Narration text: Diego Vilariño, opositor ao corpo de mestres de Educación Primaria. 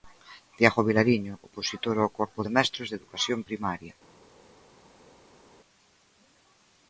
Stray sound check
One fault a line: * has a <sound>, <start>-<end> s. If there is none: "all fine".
all fine